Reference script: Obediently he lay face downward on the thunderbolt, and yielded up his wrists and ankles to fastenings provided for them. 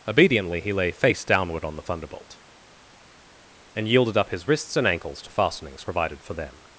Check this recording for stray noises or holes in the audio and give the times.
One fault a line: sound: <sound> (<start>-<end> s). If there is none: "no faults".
no faults